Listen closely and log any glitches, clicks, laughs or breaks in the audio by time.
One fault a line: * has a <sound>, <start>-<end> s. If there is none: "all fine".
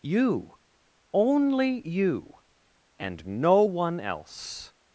all fine